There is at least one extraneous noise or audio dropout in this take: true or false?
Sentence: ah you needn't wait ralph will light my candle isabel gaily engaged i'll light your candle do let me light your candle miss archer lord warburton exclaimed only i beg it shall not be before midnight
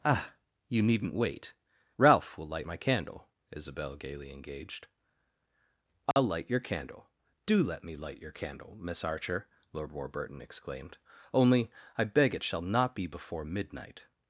true